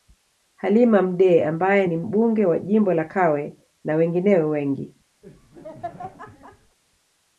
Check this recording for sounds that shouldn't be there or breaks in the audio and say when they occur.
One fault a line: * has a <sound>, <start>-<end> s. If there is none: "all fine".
* has a laugh, 5.2-6.8 s